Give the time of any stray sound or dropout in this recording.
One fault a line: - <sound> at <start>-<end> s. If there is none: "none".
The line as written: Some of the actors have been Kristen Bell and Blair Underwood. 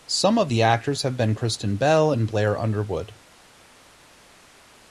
none